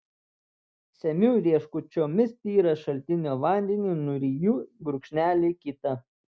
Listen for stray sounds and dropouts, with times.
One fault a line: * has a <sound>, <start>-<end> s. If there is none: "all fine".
all fine